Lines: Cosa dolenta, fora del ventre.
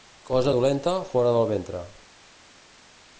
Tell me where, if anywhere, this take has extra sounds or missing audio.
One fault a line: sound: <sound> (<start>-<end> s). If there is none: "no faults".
no faults